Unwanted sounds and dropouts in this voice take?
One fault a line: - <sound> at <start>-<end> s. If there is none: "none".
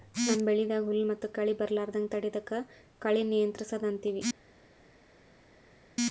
none